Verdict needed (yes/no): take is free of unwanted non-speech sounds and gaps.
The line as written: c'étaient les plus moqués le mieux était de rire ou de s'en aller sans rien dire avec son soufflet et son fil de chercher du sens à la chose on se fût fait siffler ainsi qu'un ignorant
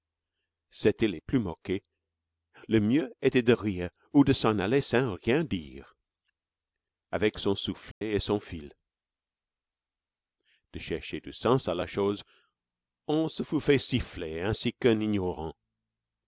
no